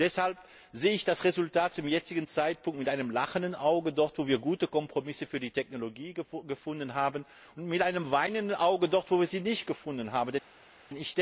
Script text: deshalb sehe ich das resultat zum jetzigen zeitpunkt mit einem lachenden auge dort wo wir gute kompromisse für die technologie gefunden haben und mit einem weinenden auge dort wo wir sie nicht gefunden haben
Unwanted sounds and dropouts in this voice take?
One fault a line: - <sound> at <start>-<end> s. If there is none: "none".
none